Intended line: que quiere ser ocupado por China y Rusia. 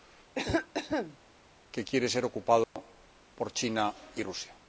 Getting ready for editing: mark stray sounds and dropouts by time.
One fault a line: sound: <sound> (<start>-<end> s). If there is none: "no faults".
sound: cough (0.3-1.2 s)
sound: dropout (2.6-2.8 s)